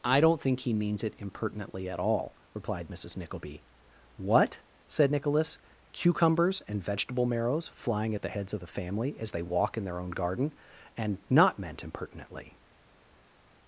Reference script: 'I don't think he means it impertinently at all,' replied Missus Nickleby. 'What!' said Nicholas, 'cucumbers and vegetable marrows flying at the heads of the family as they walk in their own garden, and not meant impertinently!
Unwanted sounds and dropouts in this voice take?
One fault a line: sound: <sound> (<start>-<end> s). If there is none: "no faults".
no faults